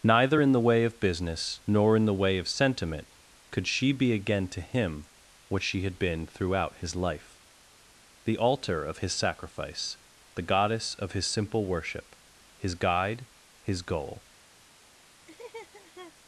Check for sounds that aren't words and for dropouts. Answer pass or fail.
fail